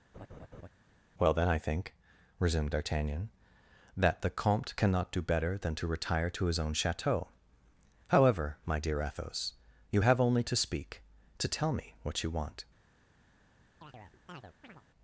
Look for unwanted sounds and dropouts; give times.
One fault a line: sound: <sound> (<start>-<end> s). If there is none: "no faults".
sound: laugh (0.1-0.7 s)
sound: chirp (13.8-14.8 s)